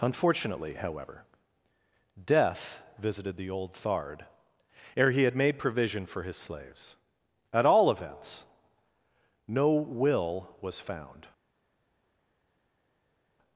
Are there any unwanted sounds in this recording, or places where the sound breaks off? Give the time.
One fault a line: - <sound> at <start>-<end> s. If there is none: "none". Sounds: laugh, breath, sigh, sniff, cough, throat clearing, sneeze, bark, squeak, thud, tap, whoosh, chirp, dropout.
none